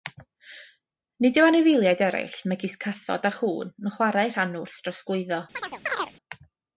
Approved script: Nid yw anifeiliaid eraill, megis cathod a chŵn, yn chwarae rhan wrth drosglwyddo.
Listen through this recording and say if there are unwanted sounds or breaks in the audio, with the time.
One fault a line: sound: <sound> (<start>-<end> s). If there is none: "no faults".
sound: chirp (5.5-6.1 s)